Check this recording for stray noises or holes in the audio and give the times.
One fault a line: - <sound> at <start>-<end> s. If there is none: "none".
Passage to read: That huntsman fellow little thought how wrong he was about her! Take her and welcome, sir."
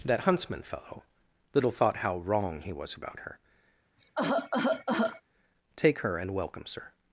- cough at 4.0-5.2 s